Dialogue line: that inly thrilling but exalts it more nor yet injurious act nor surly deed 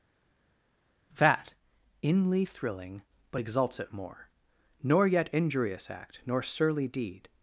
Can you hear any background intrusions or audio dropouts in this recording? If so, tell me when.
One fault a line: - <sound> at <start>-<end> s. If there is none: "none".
none